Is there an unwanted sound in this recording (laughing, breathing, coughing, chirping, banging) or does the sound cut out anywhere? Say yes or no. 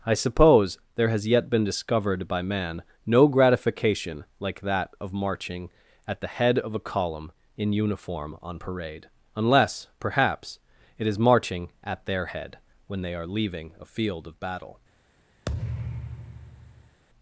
yes